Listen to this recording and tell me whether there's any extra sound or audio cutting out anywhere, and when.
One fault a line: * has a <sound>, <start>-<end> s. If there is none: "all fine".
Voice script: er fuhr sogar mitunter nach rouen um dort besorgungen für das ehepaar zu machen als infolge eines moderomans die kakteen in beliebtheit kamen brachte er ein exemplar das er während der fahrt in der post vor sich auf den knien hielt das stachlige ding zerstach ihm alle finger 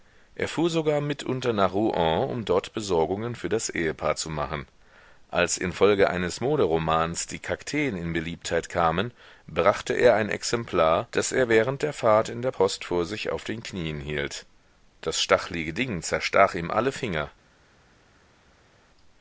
all fine